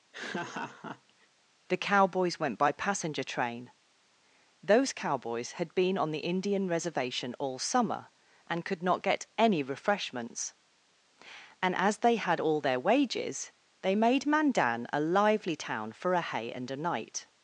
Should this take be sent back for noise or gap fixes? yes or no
yes